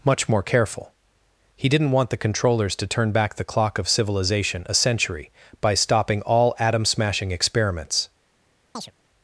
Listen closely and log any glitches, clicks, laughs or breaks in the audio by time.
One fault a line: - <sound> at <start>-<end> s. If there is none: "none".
- chirp at 8.7-8.9 s